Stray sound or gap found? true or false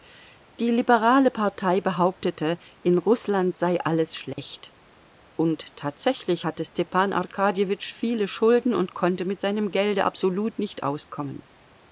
true